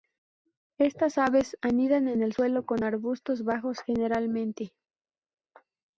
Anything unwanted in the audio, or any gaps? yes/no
no